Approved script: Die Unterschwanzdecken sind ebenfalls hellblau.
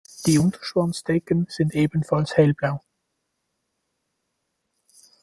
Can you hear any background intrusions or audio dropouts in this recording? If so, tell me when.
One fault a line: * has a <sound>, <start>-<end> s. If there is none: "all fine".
all fine